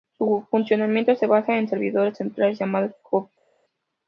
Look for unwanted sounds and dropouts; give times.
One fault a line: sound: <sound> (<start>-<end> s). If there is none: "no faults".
no faults